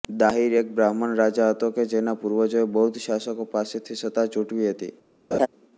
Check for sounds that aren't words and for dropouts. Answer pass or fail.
fail